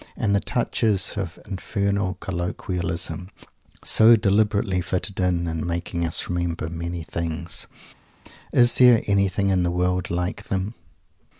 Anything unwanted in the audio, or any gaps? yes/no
no